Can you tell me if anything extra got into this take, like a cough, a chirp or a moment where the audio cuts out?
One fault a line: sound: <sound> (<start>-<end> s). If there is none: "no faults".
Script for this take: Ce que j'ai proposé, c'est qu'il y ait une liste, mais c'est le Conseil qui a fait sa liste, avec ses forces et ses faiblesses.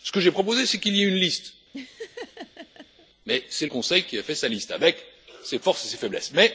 sound: laugh (1.7-3.1 s)